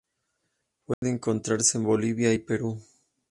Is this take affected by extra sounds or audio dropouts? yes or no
yes